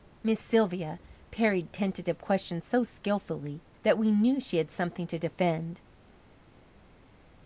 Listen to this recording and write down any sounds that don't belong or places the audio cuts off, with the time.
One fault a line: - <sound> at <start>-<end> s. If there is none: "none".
none